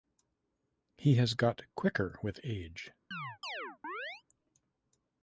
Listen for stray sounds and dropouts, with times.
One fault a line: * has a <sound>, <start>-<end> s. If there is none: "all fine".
* has a chirp, 3.1-4.2 s